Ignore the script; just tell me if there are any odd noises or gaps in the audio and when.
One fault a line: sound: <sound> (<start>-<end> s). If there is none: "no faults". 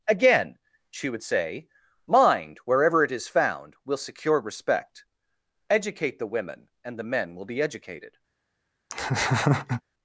sound: laugh (8.9-9.8 s)